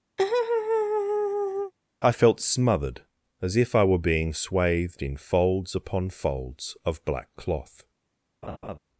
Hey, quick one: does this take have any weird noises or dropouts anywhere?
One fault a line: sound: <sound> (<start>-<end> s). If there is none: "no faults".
sound: laugh (0.2-1.7 s)
sound: laugh (8.4-8.8 s)